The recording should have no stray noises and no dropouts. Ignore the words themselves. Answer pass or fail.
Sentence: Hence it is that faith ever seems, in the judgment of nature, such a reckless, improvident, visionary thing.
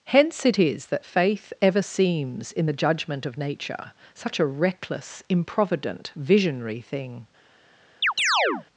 fail